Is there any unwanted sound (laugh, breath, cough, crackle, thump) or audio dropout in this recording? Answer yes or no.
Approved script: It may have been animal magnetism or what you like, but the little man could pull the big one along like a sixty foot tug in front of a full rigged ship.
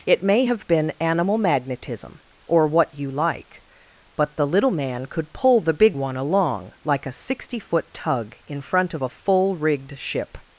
no